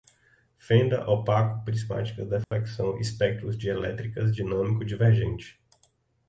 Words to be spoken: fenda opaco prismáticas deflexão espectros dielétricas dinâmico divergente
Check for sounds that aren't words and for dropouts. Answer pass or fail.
fail